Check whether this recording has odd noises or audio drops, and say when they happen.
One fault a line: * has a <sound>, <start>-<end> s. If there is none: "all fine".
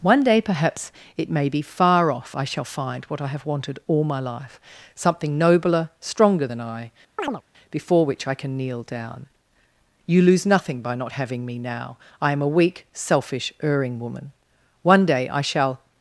* has a chirp, 7.2-7.4 s